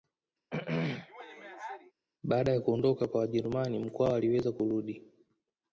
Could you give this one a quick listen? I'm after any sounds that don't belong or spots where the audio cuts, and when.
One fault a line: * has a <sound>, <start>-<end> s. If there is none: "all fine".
* has a throat clearing, 0.5-1.9 s